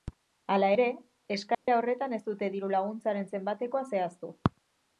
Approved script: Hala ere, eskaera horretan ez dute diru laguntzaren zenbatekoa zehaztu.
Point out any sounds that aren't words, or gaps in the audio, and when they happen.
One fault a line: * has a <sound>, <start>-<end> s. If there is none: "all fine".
* has a dropout, 1.5-1.7 s